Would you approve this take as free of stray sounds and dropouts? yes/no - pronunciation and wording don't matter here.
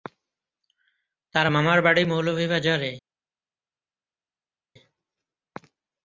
yes